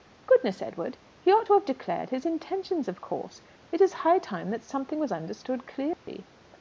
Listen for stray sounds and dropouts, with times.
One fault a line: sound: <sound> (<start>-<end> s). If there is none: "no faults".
sound: dropout (5.9-6.1 s)